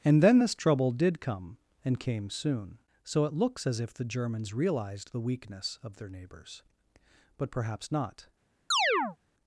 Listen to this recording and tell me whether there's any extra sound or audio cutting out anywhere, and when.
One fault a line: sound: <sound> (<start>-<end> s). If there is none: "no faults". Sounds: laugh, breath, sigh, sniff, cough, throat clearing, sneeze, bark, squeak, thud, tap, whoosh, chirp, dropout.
sound: chirp (8.7-9.2 s)